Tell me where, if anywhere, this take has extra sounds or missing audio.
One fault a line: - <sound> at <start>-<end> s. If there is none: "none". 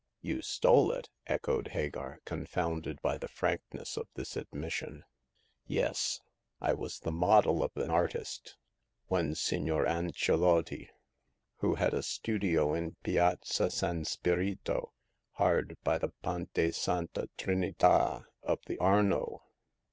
none